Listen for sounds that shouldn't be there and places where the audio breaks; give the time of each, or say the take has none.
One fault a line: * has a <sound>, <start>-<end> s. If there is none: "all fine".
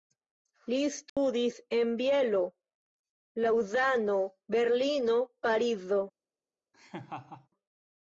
* has a dropout, 1.1-1.2 s
* has a laugh, 6.7-7.5 s